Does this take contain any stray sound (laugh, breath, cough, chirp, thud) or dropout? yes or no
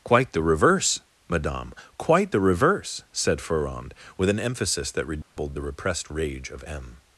yes